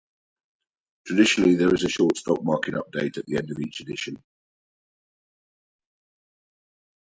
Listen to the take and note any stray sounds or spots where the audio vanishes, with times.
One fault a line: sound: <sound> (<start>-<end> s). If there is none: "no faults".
no faults